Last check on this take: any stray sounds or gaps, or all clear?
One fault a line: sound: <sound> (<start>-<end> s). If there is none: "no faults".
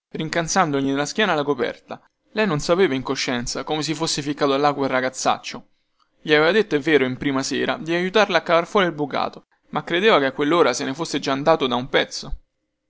no faults